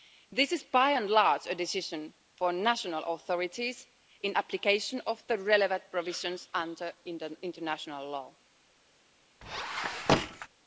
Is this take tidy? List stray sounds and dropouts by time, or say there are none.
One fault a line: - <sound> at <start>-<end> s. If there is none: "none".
- squeak at 9.4-10.5 s